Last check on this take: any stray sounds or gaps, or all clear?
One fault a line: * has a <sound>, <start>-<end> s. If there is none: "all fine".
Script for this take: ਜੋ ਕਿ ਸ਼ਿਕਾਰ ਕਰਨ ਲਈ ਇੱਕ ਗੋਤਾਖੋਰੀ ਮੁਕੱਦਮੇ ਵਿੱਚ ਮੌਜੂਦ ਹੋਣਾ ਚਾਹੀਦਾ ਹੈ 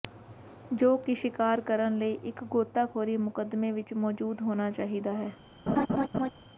* has a laugh, 5.7-6.3 s